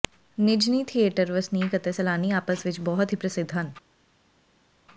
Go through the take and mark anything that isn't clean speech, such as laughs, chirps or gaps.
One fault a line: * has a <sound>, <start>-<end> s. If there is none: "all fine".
all fine